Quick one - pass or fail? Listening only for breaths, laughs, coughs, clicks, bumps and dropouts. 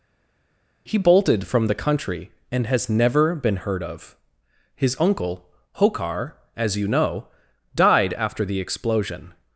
pass